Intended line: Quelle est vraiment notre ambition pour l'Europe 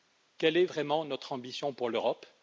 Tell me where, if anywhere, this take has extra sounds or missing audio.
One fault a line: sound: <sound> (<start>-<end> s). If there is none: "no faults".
no faults